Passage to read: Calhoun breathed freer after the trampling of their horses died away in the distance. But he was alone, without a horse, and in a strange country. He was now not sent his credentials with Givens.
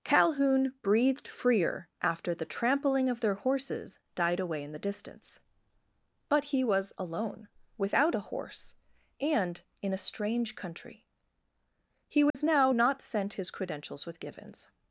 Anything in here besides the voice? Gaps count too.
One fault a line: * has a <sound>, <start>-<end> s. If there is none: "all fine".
* has a dropout, 12.3-12.3 s